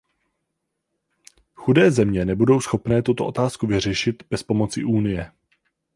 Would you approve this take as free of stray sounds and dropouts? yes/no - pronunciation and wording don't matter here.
yes